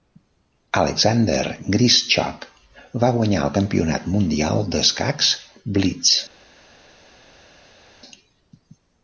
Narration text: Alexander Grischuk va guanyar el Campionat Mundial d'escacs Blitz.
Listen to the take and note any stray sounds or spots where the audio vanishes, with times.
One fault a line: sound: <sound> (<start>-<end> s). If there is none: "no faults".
no faults